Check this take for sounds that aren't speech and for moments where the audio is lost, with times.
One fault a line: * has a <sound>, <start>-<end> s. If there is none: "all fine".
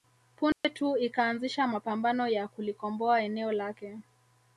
* has a dropout, 0.5-0.6 s